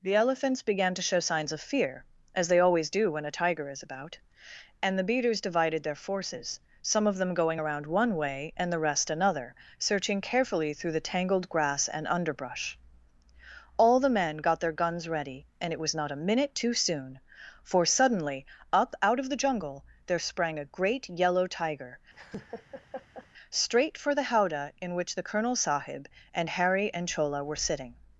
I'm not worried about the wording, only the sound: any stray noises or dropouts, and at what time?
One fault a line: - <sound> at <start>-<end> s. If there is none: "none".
- laugh at 22.1-23.3 s